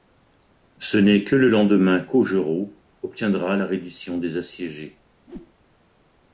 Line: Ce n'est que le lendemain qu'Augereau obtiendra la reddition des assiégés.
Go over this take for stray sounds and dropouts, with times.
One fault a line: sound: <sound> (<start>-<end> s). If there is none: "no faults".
sound: whoosh (5.3-5.5 s)